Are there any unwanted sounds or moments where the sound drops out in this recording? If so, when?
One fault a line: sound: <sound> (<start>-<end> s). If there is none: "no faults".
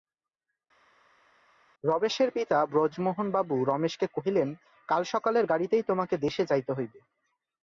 no faults